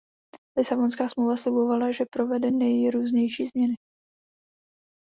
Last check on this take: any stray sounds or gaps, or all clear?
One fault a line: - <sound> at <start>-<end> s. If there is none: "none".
none